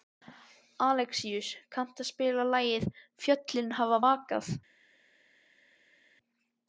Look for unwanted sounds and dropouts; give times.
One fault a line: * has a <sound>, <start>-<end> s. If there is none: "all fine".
all fine